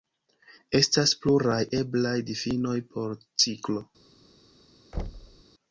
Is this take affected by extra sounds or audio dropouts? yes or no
yes